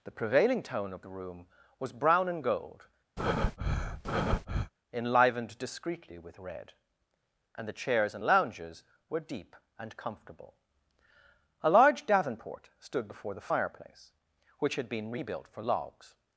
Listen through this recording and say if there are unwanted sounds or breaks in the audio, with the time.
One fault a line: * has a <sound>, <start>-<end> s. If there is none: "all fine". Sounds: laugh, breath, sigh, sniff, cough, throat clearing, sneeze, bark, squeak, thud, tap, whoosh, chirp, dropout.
* has a breath, 3.2-4.7 s